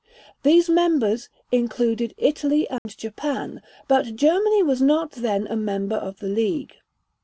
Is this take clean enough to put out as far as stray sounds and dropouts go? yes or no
no